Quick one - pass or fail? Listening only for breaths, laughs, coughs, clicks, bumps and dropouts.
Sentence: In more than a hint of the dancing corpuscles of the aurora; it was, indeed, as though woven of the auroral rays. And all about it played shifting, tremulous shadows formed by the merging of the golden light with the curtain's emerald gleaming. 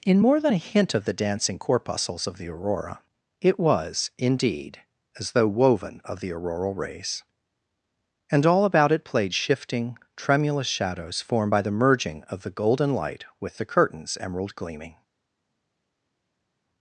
pass